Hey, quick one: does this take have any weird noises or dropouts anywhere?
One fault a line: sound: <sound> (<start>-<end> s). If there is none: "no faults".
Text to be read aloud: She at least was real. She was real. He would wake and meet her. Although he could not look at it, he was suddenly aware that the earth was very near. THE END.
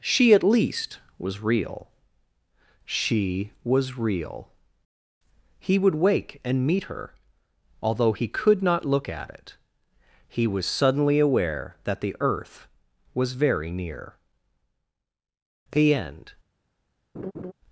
sound: laugh (17.1-17.5 s)